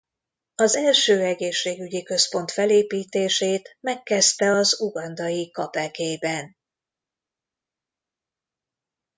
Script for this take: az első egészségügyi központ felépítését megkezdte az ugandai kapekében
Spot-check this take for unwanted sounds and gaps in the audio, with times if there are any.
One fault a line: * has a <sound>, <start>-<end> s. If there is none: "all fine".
all fine